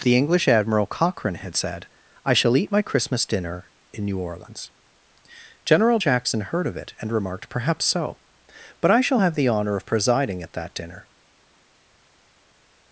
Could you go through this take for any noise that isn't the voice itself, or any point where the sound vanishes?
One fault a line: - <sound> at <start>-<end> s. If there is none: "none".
none